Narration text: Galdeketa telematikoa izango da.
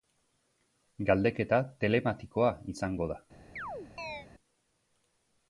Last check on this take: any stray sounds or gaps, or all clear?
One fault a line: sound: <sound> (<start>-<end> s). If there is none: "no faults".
sound: chirp (3.6-4.3 s)